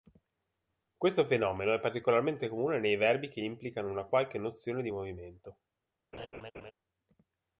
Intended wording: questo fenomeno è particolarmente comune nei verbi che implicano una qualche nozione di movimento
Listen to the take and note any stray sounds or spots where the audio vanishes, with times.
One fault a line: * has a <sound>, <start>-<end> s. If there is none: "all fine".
* has a laugh, 6.1-6.7 s